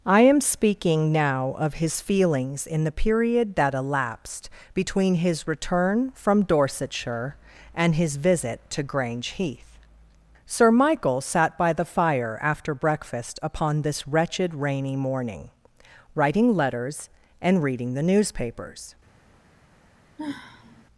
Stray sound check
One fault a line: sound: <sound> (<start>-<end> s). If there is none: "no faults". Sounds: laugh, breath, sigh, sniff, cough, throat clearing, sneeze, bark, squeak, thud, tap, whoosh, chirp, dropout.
sound: sigh (20.2-20.8 s)